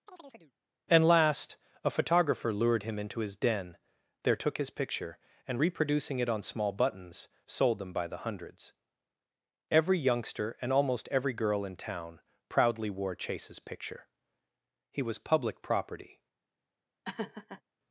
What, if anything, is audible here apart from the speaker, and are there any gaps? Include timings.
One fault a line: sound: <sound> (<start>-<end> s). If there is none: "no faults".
sound: chirp (0.1-0.5 s)
sound: laugh (17.0-17.6 s)